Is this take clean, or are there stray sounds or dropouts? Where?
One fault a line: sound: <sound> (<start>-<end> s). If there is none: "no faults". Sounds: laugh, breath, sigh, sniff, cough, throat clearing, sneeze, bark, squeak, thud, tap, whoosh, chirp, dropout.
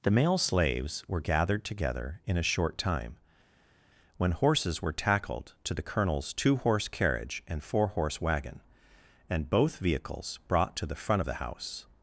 no faults